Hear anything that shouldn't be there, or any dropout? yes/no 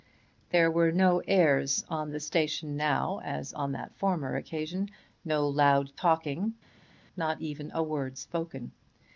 no